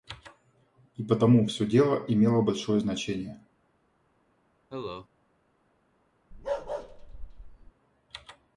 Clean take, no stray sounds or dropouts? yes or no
no